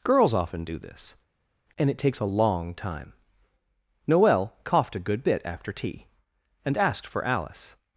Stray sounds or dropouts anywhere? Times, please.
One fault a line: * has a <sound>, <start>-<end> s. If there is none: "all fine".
all fine